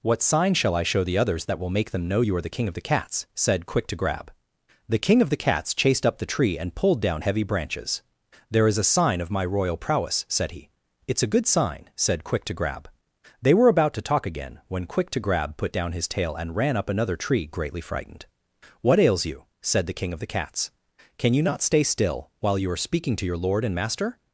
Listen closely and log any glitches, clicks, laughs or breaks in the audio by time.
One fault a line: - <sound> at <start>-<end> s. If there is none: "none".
none